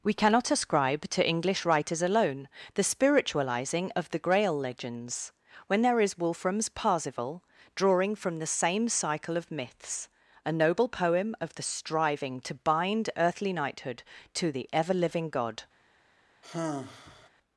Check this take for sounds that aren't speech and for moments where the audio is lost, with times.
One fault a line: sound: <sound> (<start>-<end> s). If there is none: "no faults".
sound: sigh (16.4-17.3 s)